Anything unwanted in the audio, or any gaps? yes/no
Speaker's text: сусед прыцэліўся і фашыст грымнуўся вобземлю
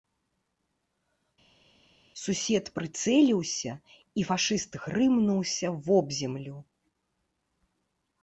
no